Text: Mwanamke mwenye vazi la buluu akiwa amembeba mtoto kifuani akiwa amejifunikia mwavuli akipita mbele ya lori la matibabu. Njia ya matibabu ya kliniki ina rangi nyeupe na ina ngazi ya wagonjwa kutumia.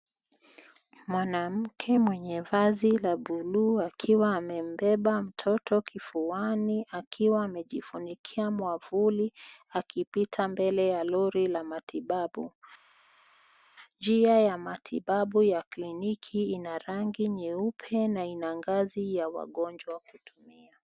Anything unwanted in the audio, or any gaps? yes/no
no